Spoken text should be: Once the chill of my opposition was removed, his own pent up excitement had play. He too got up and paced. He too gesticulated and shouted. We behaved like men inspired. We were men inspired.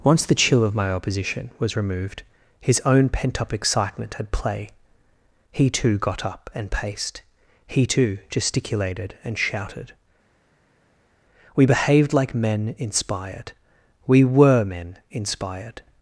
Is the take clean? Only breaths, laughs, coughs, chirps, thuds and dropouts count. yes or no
yes